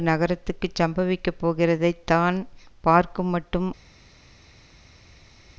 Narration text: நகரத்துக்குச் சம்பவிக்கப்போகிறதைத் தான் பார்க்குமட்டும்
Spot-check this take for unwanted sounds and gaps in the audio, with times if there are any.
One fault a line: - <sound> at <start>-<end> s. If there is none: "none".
none